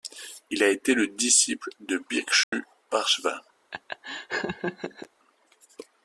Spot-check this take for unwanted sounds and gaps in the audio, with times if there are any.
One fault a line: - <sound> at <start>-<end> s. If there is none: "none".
- dropout at 2.4-2.5 s
- laugh at 3.7-5.1 s